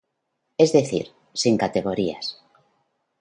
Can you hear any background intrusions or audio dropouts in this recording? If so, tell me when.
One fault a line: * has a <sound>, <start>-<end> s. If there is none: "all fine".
all fine